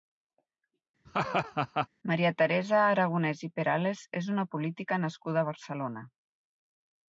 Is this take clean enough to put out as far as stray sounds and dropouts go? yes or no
no